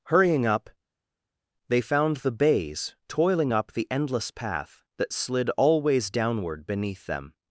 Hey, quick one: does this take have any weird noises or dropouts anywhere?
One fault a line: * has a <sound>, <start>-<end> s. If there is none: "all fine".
all fine